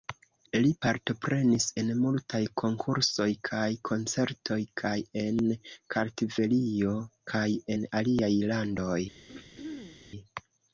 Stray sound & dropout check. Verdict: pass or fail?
fail